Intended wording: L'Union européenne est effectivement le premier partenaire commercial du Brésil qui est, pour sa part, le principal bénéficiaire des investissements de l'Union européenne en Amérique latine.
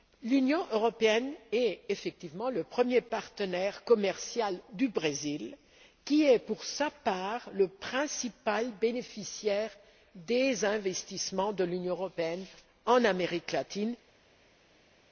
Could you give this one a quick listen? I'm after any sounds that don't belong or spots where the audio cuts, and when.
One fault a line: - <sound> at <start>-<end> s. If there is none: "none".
none